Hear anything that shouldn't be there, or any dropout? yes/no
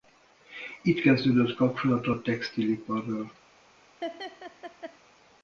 yes